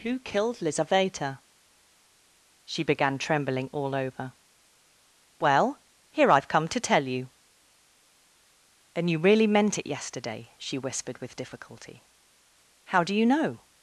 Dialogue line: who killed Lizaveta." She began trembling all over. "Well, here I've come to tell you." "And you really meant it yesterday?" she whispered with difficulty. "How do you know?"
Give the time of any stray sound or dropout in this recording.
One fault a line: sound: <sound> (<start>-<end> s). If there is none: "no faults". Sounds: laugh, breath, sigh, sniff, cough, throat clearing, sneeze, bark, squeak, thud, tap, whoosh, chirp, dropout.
no faults